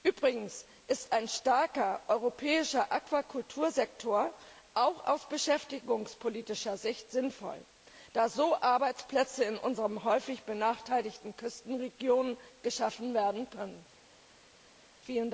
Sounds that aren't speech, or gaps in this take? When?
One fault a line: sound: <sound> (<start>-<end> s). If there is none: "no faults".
no faults